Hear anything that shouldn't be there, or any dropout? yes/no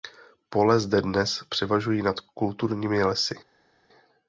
no